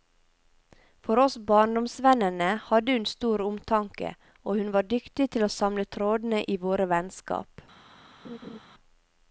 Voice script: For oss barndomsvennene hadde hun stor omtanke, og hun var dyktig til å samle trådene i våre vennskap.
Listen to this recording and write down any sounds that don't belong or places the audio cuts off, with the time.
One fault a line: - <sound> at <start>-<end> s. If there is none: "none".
- laugh at 8.2-8.6 s